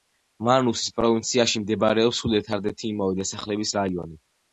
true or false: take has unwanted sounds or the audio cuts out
false